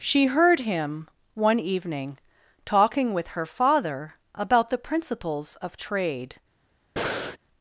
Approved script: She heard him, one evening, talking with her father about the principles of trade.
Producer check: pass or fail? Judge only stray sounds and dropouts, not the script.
fail